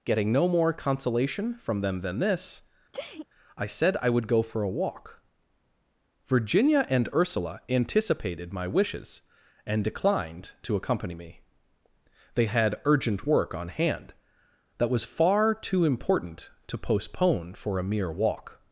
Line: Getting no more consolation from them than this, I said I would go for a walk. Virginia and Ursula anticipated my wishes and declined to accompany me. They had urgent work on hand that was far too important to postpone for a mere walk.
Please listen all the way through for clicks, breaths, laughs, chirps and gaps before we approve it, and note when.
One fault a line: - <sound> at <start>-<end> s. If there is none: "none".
- sneeze at 2.9-3.3 s